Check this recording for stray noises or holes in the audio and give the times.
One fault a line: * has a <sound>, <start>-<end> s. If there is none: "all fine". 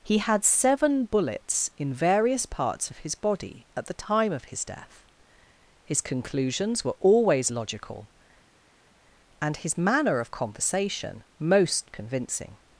all fine